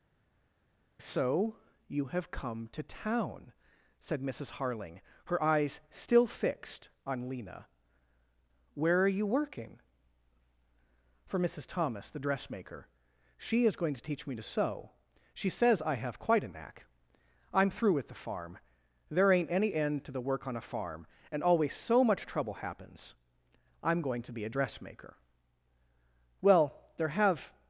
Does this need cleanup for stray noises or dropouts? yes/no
no